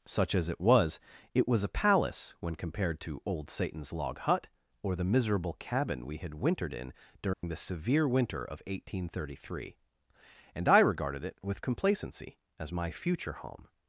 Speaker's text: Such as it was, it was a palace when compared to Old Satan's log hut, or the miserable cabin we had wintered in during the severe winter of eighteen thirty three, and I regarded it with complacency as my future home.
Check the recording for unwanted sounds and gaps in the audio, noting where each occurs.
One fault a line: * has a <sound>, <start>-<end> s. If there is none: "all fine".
* has a dropout, 7.3-7.4 s